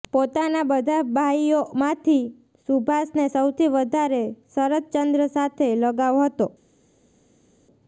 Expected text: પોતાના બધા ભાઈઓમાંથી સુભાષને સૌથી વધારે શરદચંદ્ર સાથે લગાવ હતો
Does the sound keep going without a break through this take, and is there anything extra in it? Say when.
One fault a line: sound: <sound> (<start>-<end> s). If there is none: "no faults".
no faults